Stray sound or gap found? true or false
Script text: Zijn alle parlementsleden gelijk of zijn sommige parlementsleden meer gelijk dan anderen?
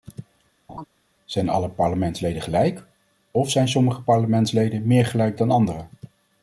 true